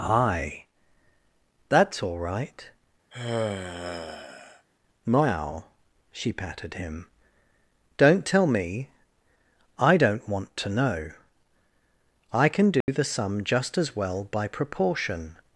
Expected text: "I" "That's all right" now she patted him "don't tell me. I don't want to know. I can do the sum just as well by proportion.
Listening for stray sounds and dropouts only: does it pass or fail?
fail